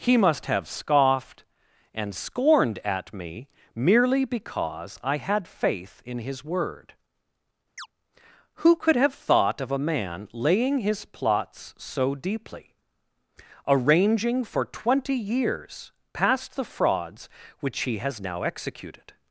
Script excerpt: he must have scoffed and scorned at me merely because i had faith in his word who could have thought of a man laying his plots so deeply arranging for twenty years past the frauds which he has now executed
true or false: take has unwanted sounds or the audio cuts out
true